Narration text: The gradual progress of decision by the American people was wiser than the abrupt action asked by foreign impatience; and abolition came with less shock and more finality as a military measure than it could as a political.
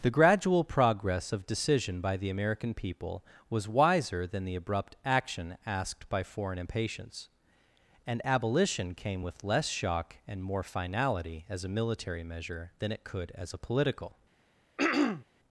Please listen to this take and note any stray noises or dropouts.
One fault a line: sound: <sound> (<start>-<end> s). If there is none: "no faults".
sound: throat clearing (14.8-15.2 s)